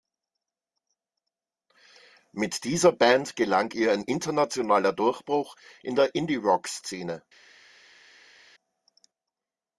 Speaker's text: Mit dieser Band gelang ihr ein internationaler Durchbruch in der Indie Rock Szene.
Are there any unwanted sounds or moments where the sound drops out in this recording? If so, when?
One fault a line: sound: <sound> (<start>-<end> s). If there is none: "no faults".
no faults